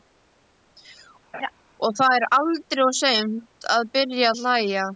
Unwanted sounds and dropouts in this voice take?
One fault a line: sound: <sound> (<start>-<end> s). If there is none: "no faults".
sound: laugh (1.3-1.5 s)